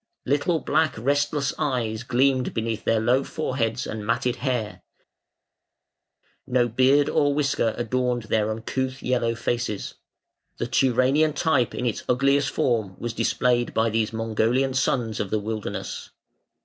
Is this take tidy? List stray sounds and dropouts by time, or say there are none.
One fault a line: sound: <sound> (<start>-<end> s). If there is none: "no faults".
no faults